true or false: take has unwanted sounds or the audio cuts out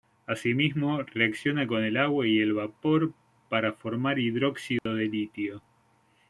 true